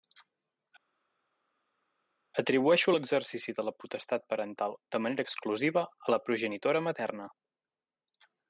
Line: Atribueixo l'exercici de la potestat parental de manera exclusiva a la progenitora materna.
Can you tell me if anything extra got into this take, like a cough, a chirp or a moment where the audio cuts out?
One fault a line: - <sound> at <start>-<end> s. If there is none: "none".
none